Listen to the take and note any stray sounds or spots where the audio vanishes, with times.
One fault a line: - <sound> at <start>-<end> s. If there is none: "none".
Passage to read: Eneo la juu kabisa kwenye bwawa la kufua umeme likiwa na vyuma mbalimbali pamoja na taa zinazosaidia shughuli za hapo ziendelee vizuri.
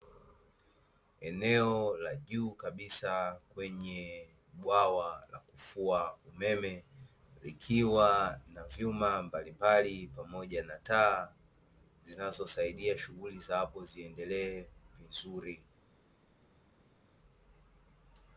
none